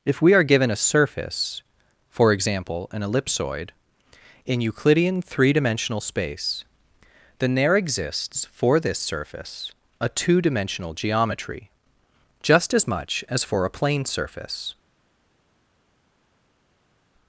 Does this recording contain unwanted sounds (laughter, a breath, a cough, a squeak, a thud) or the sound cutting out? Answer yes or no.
no